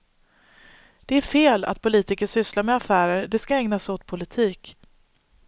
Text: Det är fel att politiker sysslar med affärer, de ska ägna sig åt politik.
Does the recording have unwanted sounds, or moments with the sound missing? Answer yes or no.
no